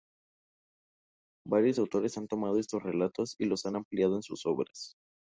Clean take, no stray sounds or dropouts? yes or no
yes